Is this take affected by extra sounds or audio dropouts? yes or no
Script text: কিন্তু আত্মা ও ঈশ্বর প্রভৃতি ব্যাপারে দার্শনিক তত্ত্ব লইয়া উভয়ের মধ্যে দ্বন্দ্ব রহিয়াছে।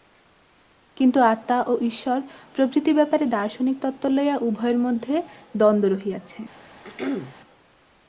yes